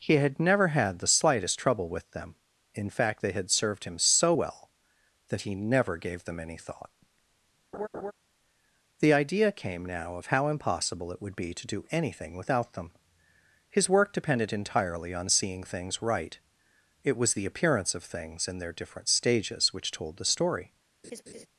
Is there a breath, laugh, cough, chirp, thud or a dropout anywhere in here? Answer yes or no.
yes